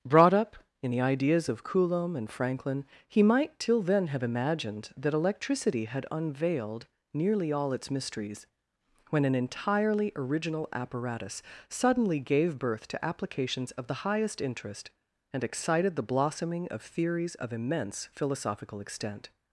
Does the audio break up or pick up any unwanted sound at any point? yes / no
no